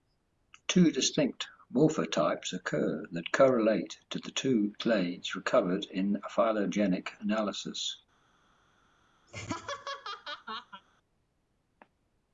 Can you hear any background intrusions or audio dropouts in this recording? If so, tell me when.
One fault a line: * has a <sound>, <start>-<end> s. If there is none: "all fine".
* has a laugh, 9.3-10.8 s